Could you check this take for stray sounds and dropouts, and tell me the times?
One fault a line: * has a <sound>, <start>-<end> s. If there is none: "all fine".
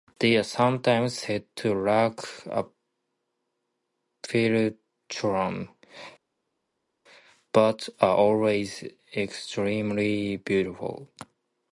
all fine